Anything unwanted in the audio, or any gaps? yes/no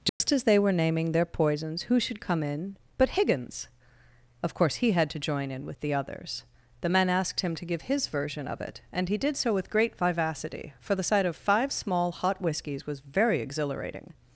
yes